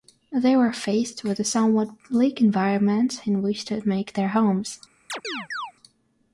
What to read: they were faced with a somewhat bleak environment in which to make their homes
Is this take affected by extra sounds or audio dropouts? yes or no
yes